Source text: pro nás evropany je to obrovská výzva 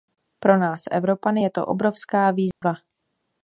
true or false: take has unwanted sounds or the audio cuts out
true